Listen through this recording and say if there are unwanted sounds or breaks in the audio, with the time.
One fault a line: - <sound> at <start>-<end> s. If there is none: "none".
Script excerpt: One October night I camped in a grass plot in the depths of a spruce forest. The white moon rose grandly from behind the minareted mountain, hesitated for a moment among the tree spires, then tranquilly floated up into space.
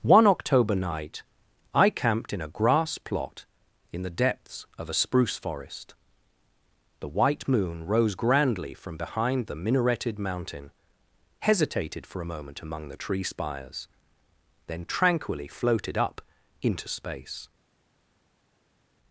none